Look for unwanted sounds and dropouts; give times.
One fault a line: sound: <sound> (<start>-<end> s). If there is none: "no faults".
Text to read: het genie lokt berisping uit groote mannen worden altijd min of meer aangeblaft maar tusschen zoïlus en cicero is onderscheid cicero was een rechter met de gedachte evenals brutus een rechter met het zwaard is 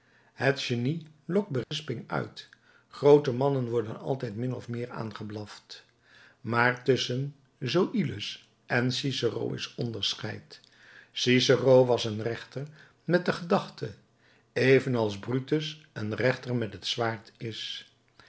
sound: dropout (1.6-1.7 s)